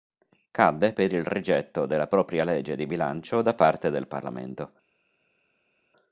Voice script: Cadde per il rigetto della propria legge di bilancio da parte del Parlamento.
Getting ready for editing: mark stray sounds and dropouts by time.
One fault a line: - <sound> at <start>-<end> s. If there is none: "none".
none